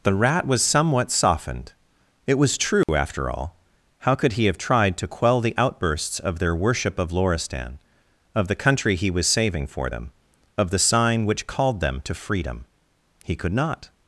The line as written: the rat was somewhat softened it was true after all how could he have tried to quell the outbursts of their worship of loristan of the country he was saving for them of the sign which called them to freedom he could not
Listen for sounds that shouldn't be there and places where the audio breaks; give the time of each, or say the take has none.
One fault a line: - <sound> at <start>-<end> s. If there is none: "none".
- dropout at 2.8-2.9 s